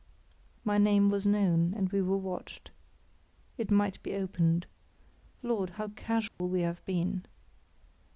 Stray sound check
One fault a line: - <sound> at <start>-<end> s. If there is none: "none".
- dropout at 6.3-6.4 s